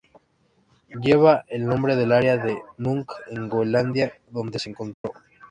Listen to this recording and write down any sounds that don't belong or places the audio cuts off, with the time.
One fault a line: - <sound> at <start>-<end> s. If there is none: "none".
- dropout at 4.9-5.0 s